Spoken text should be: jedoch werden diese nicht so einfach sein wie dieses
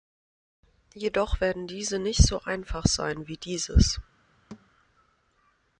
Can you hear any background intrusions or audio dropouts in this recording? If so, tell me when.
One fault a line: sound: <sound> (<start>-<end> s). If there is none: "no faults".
sound: thud (4.5-4.7 s)